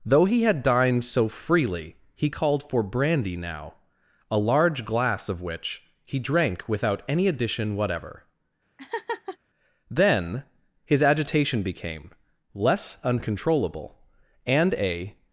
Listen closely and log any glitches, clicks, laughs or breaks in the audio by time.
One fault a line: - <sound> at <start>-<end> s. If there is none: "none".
- laugh at 8.8-9.4 s